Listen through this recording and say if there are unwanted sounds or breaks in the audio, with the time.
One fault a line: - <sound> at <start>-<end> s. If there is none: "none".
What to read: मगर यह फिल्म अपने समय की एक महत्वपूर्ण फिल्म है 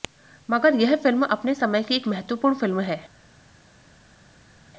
none